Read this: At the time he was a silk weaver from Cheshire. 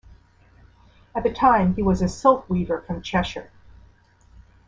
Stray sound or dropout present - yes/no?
no